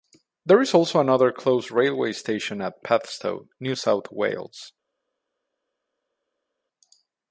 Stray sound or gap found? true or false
false